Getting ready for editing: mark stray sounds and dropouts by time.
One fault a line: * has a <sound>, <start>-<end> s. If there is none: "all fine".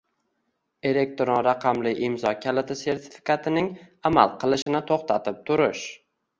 * has a dropout, 4.6-4.7 s